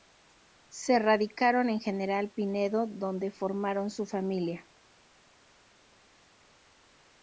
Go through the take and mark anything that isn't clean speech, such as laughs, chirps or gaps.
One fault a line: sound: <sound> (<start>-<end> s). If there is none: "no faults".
no faults